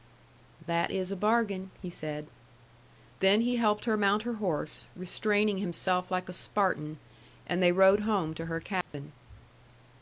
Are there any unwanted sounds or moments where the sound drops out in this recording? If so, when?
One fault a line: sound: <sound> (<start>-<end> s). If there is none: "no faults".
sound: dropout (8.8-8.9 s)